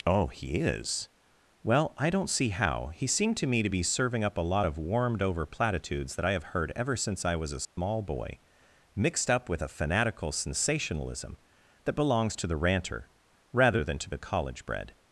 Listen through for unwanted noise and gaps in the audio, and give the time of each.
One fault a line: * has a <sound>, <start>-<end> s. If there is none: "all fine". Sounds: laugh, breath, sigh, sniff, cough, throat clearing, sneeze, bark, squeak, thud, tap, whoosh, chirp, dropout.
* has a dropout, 7.6-7.8 s